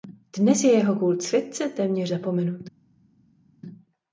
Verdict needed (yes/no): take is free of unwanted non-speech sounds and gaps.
yes